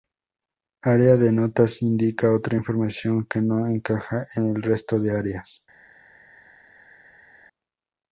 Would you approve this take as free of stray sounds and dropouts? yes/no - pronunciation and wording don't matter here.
yes